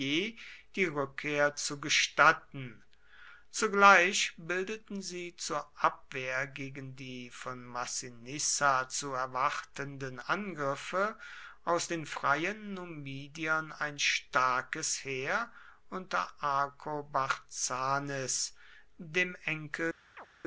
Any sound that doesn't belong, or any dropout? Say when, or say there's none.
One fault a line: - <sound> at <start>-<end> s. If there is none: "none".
- chirp at 20.2-20.3 s